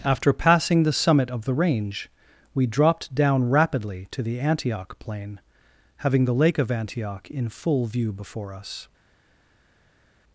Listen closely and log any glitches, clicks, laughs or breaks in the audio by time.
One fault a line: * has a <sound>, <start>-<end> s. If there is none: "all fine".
all fine